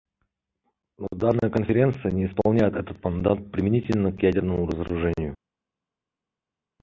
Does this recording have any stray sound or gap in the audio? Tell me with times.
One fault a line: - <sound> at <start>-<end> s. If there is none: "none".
none